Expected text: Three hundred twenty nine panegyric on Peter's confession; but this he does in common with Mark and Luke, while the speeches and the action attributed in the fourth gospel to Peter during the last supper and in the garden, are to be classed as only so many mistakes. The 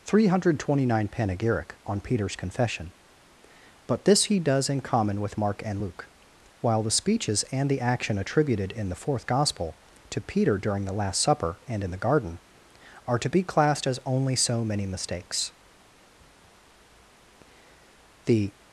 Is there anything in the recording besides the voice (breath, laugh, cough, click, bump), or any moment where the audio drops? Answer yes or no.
no